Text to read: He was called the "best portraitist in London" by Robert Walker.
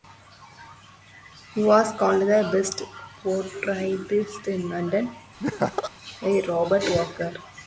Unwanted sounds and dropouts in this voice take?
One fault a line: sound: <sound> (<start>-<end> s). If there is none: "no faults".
sound: laugh (5.4-5.9 s)